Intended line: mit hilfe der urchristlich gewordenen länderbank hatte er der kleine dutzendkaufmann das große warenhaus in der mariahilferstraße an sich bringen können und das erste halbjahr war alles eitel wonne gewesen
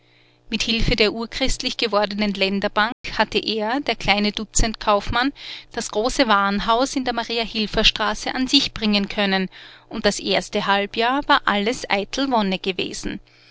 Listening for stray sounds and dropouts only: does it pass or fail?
fail